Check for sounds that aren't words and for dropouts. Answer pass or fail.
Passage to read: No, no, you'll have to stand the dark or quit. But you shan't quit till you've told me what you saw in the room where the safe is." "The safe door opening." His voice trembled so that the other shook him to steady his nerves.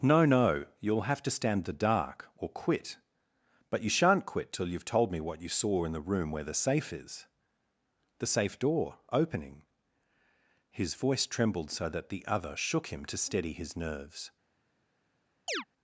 fail